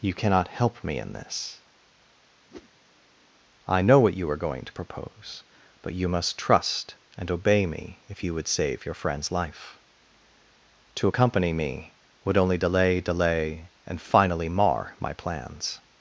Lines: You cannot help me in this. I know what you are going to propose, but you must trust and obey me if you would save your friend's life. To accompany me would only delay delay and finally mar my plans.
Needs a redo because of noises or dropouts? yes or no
yes